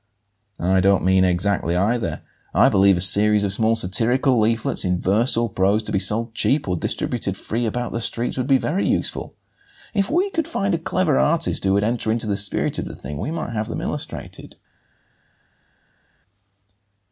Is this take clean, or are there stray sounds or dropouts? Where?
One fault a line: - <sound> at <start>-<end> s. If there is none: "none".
none